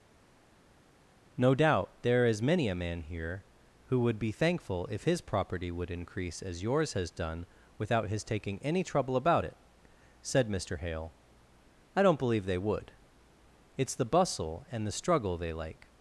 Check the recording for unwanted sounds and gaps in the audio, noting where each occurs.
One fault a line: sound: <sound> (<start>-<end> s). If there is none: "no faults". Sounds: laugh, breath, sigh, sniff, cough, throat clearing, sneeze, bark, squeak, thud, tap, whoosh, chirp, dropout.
no faults